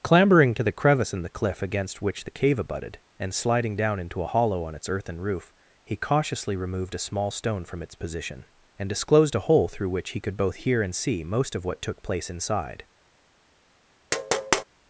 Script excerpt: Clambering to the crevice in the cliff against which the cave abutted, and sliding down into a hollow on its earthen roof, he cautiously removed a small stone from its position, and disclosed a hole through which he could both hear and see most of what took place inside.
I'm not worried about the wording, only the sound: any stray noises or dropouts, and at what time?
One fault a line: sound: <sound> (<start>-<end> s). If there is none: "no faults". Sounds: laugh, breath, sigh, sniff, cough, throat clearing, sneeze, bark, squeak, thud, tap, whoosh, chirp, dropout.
sound: tap (14.1-14.6 s)